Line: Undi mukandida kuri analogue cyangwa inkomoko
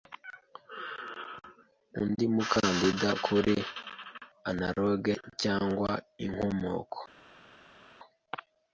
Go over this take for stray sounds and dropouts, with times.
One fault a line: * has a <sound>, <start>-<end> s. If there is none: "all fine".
all fine